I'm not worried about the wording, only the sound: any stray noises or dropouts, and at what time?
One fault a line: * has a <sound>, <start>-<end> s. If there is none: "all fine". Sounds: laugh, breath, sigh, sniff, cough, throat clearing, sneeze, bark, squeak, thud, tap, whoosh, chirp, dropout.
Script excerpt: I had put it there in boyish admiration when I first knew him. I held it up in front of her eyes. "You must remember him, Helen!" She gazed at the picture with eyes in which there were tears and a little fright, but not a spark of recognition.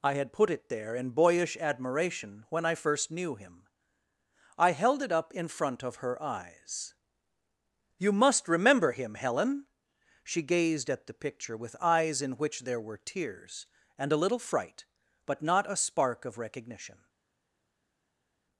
all fine